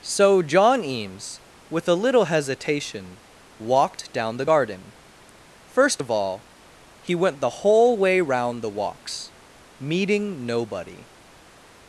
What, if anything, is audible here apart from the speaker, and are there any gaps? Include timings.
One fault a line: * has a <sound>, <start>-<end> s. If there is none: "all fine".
all fine